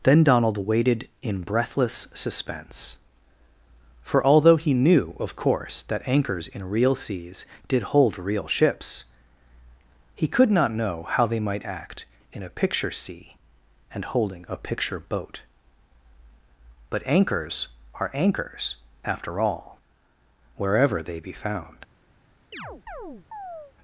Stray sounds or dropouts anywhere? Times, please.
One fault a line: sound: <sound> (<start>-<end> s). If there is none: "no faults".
sound: chirp (22.5-23.7 s)